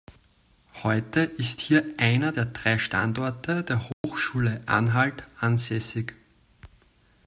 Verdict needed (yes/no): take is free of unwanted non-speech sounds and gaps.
no